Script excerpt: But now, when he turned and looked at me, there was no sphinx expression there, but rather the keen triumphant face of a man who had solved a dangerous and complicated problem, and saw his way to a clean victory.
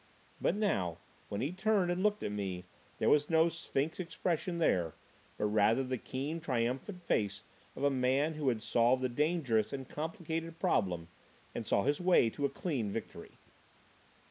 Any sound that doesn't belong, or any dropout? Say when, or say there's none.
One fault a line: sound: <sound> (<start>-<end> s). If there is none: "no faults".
no faults